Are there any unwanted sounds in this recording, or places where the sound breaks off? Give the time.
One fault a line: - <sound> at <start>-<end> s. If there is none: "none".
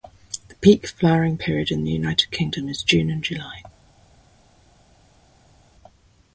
none